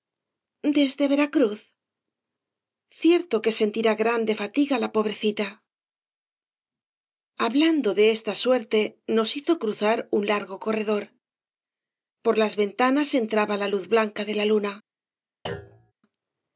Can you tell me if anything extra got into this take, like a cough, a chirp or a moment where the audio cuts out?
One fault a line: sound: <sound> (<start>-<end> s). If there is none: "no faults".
sound: thud (15.5-15.9 s)